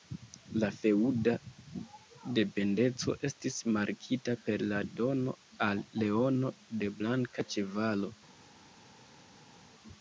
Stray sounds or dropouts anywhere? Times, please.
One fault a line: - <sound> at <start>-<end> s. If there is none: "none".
none